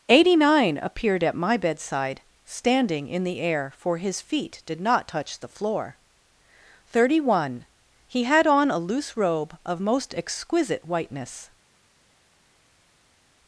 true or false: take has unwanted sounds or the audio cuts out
false